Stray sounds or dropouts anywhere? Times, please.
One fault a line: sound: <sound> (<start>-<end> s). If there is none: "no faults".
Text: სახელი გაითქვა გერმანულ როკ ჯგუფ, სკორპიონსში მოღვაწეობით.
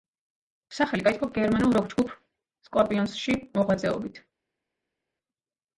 no faults